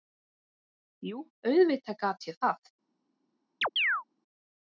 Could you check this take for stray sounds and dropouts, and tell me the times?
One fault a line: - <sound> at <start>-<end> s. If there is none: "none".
- chirp at 3.6-4.0 s